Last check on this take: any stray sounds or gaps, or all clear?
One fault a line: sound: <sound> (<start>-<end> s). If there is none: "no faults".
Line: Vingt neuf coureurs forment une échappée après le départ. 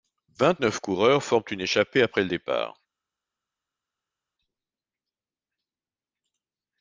no faults